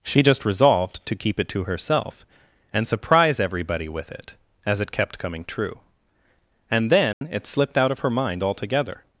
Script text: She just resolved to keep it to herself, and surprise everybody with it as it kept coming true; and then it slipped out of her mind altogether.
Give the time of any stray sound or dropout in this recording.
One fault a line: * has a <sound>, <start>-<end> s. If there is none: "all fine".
* has a dropout, 7.1-7.2 s